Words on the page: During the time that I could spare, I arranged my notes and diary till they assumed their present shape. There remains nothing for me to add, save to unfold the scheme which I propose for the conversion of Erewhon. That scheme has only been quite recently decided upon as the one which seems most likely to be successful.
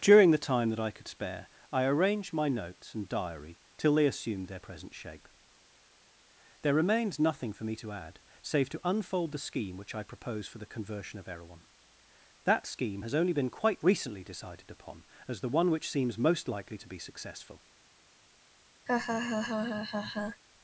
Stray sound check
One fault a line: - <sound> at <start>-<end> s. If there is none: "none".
- laugh at 18.9-20.4 s